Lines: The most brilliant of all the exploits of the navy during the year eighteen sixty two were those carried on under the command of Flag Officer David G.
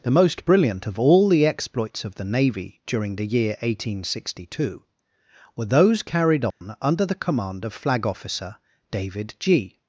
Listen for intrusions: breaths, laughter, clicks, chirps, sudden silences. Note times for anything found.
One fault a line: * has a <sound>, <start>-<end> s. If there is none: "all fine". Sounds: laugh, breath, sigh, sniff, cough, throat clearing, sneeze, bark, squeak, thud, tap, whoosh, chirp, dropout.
* has a dropout, 6.5-6.6 s